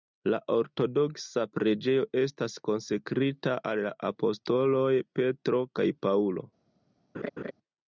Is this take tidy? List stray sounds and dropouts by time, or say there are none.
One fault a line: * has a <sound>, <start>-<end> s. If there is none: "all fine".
* has a laugh, 7.1-7.5 s